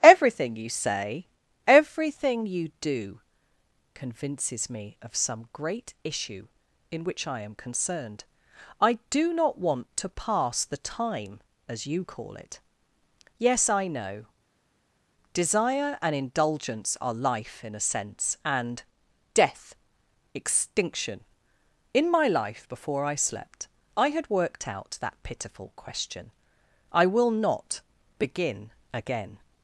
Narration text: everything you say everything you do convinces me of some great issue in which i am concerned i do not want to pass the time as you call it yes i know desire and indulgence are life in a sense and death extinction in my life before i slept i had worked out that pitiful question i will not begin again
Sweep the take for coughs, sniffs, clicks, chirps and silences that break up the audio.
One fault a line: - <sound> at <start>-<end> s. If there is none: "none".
none